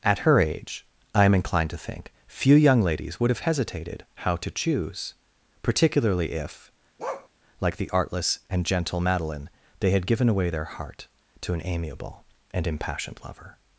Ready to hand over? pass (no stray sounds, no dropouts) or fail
fail